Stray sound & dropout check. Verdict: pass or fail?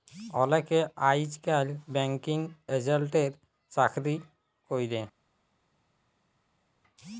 pass